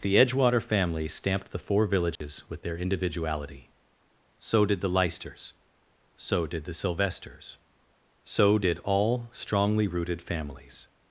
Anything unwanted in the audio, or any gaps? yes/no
yes